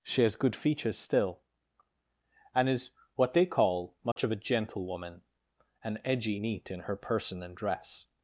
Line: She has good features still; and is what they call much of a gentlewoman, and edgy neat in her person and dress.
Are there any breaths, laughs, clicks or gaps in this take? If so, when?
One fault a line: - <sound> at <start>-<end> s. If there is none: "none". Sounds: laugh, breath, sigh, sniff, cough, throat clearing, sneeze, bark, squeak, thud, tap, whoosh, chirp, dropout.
- dropout at 4.1-4.2 s